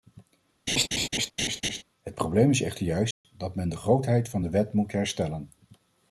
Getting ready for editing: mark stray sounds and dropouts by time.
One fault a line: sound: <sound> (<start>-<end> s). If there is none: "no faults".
sound: laugh (0.7-1.8 s)
sound: dropout (3.1-3.2 s)